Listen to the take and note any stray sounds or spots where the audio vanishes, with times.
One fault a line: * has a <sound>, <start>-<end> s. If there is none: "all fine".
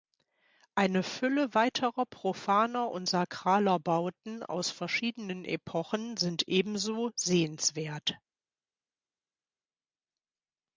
all fine